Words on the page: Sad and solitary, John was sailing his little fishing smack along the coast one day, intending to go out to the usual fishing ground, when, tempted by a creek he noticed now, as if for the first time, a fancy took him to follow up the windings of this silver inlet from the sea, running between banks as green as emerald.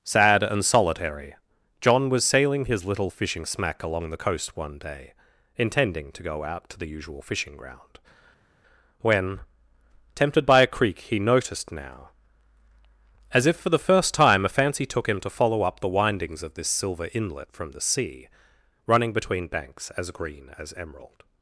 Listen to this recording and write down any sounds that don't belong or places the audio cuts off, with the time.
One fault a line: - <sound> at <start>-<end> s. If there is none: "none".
none